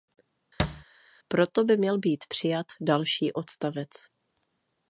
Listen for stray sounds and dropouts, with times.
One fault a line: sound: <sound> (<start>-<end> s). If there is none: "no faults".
sound: thud (0.6-0.8 s)